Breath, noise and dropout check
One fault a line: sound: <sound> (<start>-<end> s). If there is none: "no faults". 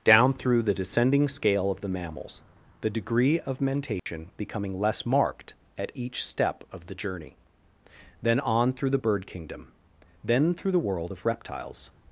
sound: dropout (4.0-4.1 s)